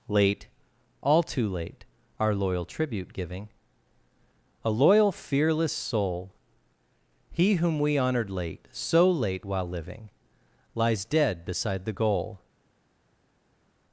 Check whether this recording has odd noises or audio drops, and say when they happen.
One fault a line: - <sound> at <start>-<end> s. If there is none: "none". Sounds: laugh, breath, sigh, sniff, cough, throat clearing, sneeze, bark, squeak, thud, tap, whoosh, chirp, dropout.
none